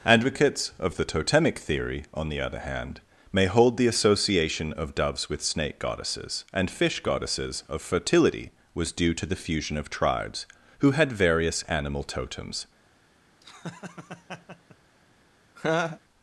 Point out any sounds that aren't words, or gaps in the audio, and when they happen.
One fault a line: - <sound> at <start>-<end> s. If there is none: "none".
- laugh at 13.4-14.8 s
- laugh at 15.6-16.0 s